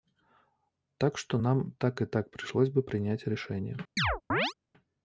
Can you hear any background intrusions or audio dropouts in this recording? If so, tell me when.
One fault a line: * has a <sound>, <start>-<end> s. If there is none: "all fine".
* has a chirp, 4.0-4.5 s